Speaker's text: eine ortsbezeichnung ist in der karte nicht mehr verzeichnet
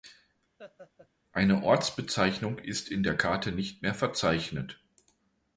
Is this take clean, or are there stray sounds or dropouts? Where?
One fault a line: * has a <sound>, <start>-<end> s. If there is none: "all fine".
* has a laugh, 0.6-1.1 s